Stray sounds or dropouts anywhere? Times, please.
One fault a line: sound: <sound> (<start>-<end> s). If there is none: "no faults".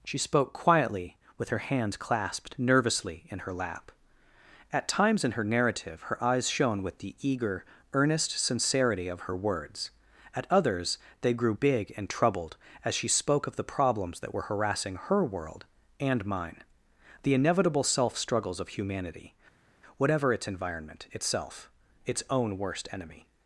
no faults